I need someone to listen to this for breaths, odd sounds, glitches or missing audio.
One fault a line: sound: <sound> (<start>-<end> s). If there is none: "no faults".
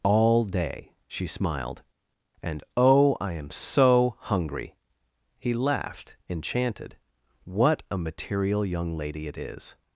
no faults